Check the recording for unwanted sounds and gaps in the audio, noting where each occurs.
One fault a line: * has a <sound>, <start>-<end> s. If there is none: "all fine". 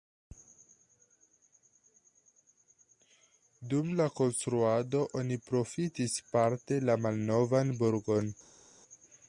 all fine